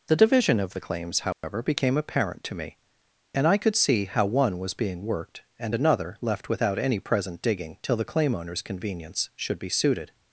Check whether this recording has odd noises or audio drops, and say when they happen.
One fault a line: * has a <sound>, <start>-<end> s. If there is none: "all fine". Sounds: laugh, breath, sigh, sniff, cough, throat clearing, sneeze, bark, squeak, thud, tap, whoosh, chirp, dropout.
* has a dropout, 1.3-1.4 s